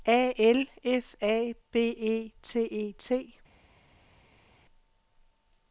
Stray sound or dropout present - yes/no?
no